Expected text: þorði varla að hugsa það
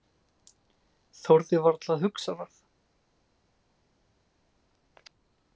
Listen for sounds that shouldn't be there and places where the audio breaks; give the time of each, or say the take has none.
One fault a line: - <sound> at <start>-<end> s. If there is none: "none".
none